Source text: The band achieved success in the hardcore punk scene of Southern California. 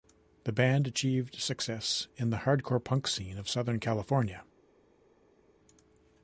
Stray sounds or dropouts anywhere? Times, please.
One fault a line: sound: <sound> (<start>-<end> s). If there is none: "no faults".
no faults